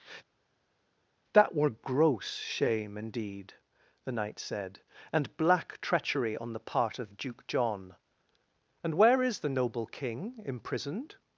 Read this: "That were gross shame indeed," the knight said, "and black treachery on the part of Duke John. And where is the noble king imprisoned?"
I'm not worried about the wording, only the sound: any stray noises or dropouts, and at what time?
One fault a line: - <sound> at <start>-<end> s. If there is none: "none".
none